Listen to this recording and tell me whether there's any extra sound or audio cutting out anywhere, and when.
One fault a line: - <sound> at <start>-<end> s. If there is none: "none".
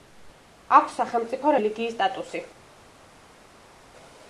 none